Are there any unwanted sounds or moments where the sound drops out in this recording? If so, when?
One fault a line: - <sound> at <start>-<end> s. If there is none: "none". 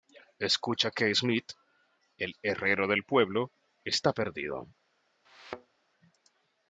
- thud at 5.2-5.8 s